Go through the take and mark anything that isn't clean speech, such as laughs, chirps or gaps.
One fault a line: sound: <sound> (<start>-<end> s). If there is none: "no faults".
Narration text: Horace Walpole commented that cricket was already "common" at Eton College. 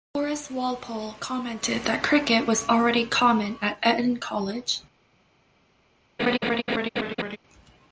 sound: laugh (6.2-7.4 s)